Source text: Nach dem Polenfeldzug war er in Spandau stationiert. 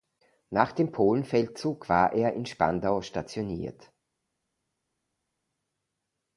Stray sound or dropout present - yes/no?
no